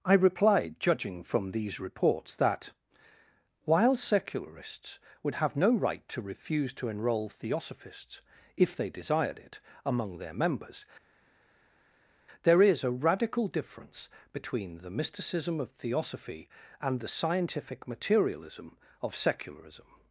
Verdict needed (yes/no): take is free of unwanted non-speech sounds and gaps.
yes